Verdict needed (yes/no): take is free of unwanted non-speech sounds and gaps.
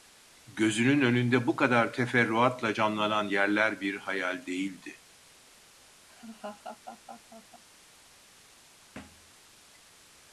no